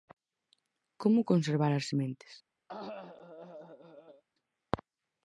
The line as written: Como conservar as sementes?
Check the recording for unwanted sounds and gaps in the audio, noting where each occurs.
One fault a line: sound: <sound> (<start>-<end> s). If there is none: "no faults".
sound: cough (2.7-4.2 s)